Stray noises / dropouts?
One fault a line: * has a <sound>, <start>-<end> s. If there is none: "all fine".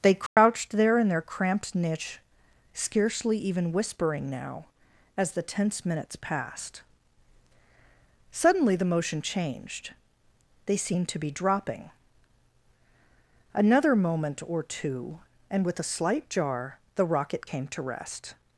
* has a dropout, 0.3-0.4 s